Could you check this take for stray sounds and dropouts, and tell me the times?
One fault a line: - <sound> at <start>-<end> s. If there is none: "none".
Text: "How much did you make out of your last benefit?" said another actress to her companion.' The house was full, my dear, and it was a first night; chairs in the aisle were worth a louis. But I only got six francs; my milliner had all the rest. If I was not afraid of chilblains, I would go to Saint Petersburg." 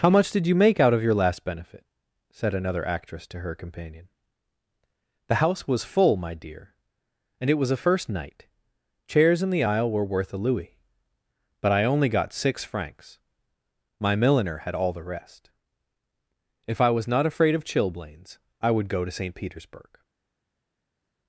none